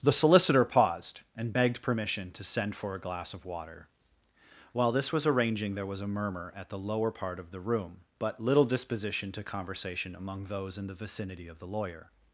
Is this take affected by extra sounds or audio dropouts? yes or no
no